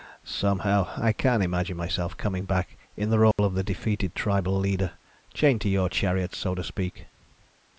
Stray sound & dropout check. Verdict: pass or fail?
fail